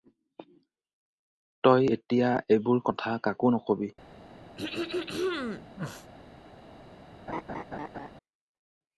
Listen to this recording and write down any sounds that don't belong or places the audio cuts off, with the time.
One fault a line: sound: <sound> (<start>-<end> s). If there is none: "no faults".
sound: throat clearing (4.6-6.1 s)
sound: laugh (7.3-8.1 s)